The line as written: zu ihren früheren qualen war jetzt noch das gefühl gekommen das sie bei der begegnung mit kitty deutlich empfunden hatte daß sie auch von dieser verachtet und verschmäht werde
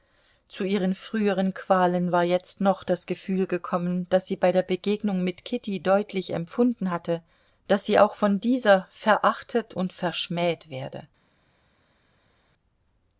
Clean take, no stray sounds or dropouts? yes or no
yes